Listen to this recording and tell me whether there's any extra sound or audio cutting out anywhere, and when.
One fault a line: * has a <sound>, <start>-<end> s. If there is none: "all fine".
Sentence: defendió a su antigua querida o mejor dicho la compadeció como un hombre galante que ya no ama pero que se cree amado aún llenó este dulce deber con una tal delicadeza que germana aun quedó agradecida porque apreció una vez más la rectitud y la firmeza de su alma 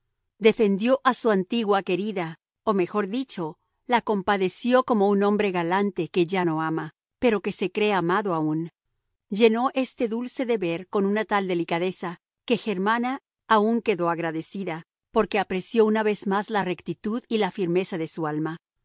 all fine